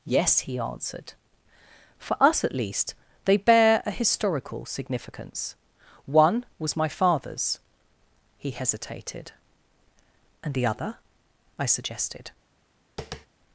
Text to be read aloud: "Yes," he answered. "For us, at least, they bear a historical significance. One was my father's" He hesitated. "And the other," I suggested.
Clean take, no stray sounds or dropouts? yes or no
no